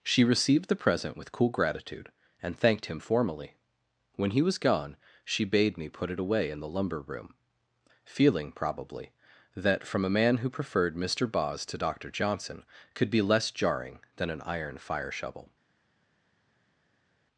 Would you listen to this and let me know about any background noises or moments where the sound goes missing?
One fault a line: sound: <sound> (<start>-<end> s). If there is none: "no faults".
no faults